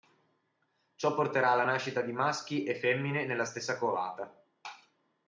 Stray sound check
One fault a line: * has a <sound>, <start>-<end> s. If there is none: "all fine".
all fine